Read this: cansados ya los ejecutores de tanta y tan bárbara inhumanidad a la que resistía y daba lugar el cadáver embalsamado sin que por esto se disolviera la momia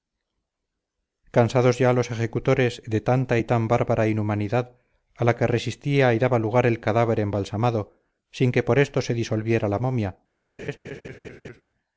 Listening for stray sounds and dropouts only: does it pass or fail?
fail